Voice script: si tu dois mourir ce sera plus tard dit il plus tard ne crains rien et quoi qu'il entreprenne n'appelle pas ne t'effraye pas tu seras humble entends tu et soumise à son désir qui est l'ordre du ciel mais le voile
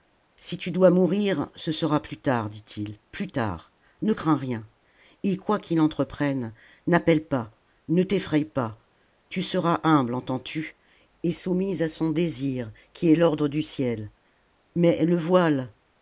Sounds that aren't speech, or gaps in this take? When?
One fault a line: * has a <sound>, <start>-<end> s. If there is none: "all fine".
all fine